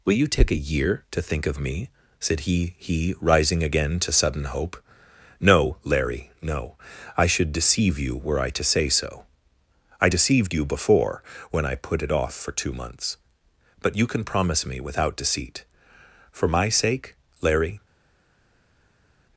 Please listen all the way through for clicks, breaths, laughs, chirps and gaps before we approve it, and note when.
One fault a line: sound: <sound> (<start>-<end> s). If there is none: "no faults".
no faults